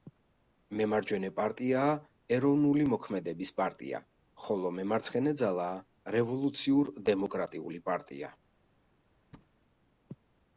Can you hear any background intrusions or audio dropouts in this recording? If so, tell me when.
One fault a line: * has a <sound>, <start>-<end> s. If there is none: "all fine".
* has a thud, 9.3-9.5 s